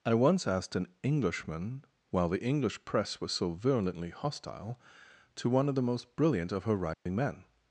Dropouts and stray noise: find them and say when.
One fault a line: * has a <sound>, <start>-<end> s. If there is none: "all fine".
* has a dropout, 6.9-7.1 s